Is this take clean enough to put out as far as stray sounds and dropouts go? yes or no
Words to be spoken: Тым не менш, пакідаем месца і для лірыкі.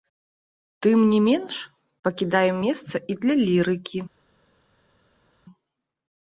yes